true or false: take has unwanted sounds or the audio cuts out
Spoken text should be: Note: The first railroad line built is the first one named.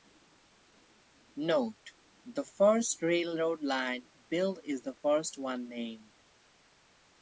false